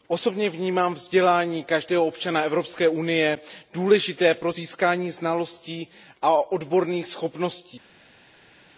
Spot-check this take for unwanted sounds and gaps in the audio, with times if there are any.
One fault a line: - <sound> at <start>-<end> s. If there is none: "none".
none